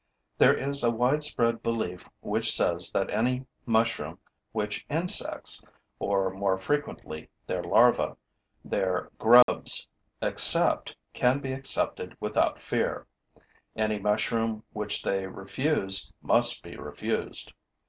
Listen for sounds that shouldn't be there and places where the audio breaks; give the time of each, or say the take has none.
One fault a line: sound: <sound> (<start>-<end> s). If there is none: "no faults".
sound: dropout (9.4-9.5 s)